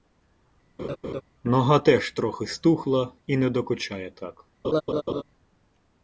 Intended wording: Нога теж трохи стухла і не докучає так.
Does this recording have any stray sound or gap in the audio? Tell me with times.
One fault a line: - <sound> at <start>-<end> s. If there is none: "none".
- laugh at 0.8-1.2 s
- laugh at 4.6-5.2 s